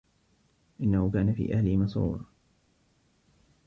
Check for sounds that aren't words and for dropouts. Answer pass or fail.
pass